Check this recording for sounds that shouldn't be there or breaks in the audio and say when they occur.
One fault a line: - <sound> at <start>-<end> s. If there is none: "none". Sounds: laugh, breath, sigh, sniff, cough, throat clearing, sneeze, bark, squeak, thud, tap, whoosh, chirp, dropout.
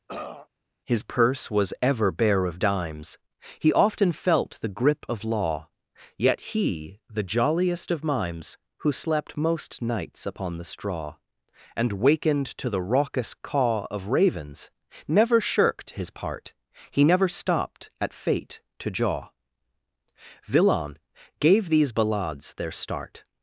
- throat clearing at 0.1-0.5 s